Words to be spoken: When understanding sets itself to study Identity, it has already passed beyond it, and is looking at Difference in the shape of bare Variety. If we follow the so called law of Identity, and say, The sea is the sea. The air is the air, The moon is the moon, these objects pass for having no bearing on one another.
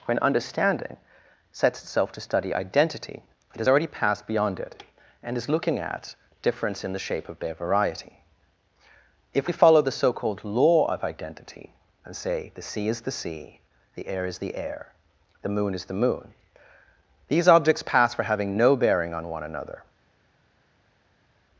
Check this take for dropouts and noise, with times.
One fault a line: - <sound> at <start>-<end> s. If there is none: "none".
none